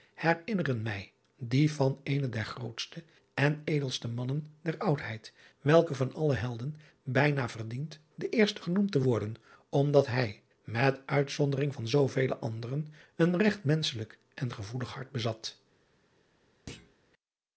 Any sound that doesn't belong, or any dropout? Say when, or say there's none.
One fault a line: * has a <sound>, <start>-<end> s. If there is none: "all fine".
* has a thud, 16.7-16.9 s